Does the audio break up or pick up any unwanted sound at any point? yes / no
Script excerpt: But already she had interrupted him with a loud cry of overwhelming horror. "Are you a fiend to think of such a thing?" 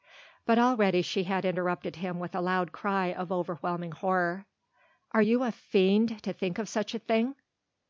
no